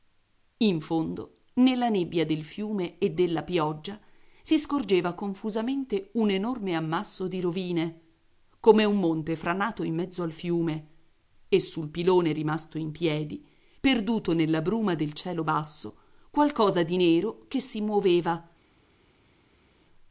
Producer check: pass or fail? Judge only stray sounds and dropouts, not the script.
pass